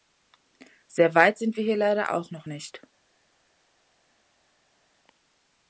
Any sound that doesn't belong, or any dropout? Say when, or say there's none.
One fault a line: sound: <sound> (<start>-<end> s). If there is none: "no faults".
no faults